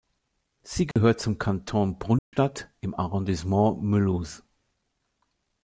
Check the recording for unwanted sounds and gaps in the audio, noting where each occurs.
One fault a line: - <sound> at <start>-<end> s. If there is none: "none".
- dropout at 0.9-1.0 s
- dropout at 2.2-2.3 s